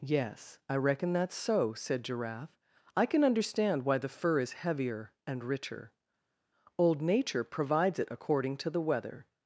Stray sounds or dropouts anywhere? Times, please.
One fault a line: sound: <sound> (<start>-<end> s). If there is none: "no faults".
no faults